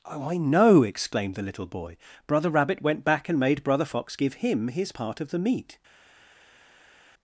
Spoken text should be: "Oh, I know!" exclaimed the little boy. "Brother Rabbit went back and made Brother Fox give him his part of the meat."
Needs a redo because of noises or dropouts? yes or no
no